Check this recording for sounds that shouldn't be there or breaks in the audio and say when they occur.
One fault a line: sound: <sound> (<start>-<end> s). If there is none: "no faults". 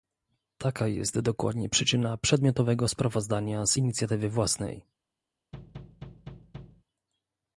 sound: thud (5.5-6.8 s)